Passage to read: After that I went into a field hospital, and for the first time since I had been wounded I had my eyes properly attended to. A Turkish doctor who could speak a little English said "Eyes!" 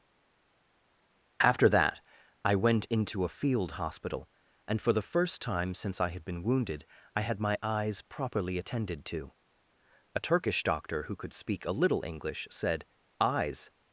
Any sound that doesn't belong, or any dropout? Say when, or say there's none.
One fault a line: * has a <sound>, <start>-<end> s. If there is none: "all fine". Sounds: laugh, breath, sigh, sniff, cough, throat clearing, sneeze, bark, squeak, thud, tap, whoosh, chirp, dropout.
all fine